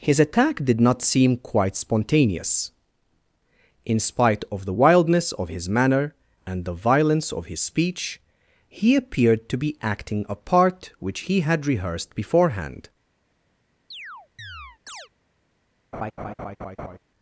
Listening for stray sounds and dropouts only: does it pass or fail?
fail